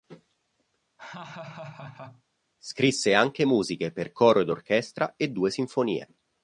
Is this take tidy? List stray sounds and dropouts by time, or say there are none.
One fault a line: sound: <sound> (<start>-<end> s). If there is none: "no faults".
sound: laugh (1.0-2.2 s)